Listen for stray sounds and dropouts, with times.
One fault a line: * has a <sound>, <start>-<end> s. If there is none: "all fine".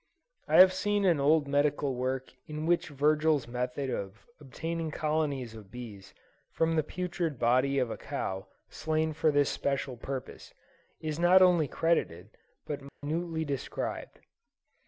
* has a dropout, 12.9-13.0 s